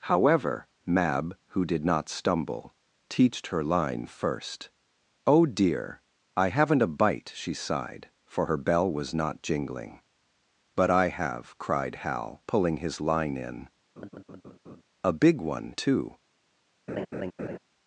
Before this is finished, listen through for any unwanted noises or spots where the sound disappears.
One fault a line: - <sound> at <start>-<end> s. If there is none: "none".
- laugh at 14.0-14.8 s
- laugh at 16.9-17.6 s